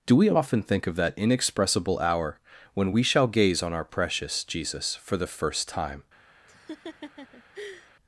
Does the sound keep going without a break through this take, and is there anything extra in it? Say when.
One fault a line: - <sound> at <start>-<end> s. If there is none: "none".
- laugh at 6.5-8.0 s